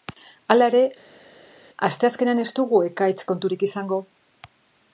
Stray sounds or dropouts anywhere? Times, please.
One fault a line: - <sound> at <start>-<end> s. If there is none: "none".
none